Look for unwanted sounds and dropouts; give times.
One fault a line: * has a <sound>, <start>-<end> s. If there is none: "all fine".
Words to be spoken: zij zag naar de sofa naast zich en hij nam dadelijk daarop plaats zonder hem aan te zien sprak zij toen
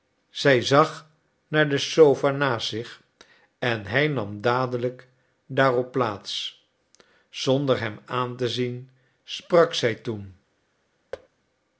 * has a thud, 11.1-11.3 s